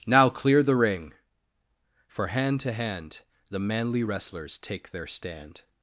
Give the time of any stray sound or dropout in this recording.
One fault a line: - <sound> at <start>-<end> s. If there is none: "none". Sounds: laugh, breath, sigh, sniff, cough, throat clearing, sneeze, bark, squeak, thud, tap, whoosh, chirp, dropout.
none